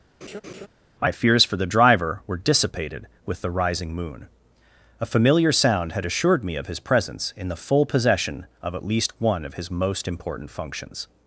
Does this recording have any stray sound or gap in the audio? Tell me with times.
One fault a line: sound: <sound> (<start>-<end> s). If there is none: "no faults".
sound: laugh (0.2-0.7 s)